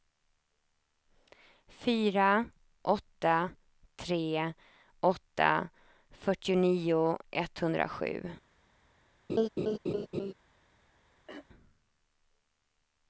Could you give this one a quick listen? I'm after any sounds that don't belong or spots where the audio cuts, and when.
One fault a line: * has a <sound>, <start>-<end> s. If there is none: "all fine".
* has a laugh, 9.3-10.3 s
* has a throat clearing, 11.3-11.5 s